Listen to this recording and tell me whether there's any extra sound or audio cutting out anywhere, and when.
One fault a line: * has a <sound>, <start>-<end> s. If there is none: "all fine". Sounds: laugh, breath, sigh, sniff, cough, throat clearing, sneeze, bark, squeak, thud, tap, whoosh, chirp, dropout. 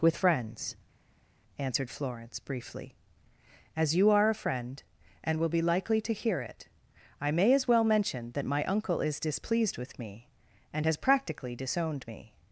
all fine